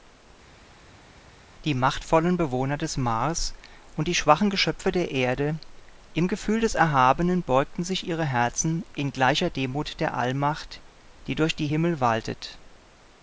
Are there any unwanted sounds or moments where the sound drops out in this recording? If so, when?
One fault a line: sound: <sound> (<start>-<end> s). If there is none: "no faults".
no faults